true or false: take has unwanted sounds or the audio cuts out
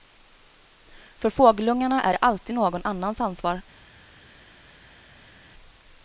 false